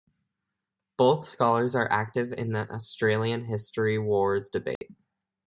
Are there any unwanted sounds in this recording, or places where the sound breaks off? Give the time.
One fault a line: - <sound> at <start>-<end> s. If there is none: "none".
- dropout at 4.8-4.8 s